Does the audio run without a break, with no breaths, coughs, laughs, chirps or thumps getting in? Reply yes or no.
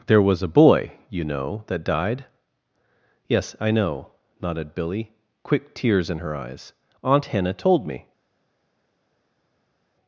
yes